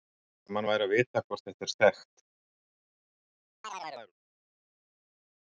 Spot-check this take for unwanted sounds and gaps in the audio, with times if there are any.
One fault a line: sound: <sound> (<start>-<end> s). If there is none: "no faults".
sound: chirp (3.6-4.1 s)